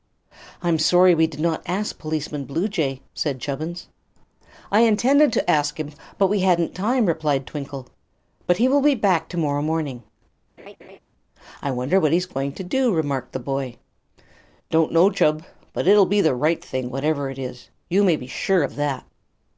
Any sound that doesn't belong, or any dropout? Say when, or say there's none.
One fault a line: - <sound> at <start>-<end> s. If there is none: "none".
- laugh at 10.6-11.0 s